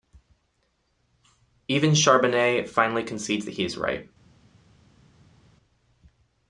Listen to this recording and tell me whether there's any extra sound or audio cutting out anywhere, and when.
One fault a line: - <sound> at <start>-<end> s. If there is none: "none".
none